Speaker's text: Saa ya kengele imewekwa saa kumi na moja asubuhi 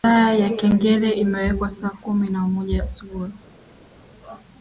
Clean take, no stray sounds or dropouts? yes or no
yes